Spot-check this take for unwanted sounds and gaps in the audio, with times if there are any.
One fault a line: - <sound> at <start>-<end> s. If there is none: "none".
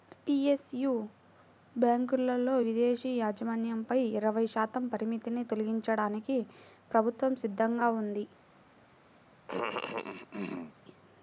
- cough at 9.5-10.7 s